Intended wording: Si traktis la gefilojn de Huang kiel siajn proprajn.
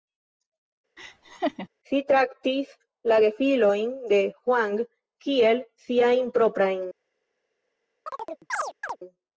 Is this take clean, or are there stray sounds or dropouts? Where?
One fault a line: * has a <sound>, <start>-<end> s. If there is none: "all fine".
* has a laugh, 1.0-1.7 s
* has a chirp, 8.1-9.0 s